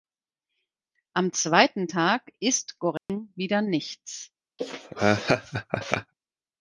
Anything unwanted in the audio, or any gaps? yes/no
yes